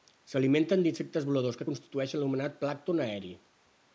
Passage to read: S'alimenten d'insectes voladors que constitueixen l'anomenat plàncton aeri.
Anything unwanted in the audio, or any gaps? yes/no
no